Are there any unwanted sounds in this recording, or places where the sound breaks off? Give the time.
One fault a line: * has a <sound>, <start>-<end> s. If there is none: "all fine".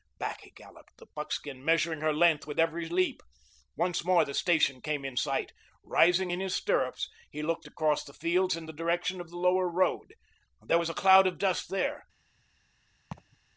* has a laugh, 13.1-13.4 s